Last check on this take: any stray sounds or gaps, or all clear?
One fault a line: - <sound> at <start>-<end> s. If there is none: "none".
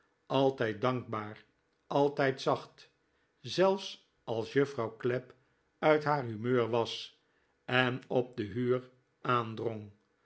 none